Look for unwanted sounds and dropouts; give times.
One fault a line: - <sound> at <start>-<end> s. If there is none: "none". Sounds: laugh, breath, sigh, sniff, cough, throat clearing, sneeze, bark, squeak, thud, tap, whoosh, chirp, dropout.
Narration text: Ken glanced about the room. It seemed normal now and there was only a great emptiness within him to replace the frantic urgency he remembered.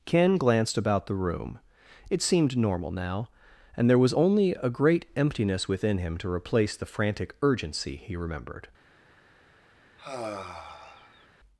- sigh at 10.0-11.3 s